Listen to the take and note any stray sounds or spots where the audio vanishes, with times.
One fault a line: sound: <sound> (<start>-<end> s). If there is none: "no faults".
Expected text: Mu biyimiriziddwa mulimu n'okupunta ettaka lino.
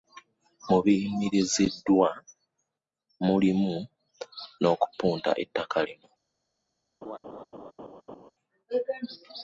sound: laugh (7.0-8.3 s)